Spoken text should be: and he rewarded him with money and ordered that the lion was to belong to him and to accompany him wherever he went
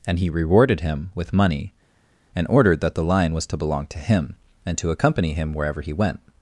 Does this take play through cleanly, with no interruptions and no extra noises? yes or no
yes